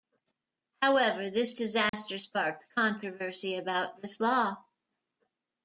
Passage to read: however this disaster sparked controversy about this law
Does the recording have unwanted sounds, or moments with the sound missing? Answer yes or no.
yes